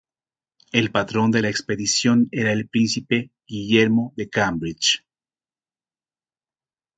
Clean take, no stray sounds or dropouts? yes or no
yes